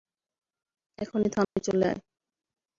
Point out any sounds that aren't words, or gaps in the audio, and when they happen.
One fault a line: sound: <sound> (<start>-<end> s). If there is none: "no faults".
sound: dropout (1.4-1.6 s)